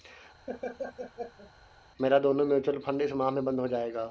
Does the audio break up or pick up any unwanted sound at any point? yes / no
yes